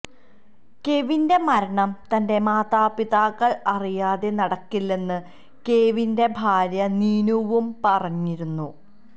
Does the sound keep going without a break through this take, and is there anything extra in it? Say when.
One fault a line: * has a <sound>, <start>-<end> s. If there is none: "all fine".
all fine